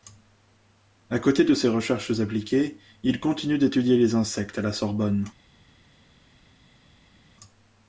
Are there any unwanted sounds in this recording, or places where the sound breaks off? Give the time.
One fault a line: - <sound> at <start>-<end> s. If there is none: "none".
none